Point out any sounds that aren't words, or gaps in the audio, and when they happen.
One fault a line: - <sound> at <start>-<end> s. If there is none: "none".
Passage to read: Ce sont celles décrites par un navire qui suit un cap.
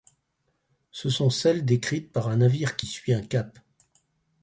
none